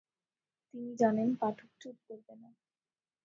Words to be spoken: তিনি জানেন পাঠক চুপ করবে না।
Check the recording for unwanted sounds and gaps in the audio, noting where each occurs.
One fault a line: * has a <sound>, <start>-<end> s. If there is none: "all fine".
all fine